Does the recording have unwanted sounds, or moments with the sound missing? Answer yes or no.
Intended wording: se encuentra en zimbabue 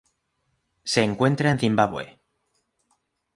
no